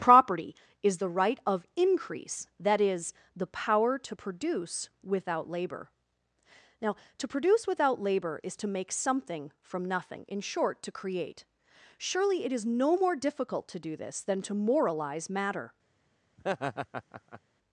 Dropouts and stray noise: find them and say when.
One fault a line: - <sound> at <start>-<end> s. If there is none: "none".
- laugh at 16.4-17.4 s